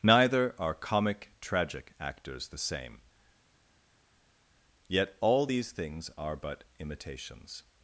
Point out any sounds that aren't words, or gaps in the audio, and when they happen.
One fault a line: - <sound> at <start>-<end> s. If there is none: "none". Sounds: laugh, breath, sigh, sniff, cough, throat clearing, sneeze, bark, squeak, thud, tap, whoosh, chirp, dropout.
none